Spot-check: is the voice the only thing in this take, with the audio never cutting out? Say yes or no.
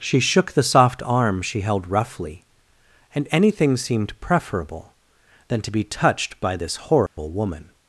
no